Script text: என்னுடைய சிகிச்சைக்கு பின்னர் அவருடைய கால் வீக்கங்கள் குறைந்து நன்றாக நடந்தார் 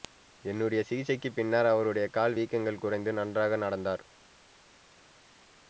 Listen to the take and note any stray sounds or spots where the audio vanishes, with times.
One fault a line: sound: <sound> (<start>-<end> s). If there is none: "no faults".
no faults